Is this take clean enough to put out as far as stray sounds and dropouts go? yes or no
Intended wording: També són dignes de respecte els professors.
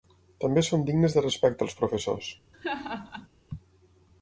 no